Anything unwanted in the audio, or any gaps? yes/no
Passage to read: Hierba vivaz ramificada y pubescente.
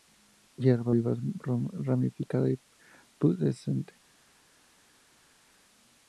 no